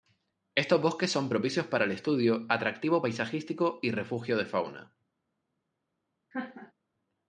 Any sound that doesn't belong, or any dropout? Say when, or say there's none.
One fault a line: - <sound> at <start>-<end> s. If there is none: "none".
- laugh at 6.3-6.7 s